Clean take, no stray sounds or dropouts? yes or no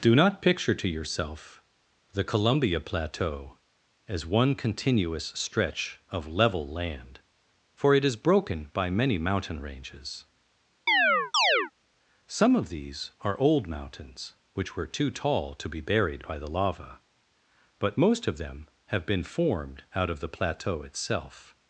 no